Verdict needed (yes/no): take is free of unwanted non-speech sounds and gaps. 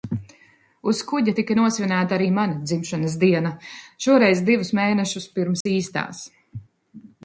no